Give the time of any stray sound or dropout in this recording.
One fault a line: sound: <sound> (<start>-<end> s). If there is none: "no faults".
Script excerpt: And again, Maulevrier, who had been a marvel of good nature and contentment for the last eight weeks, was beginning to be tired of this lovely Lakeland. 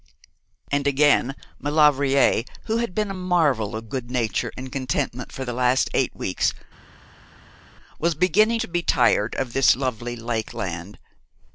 no faults